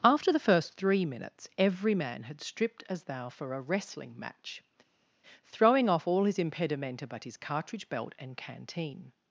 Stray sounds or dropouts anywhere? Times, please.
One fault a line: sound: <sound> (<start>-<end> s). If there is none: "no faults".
no faults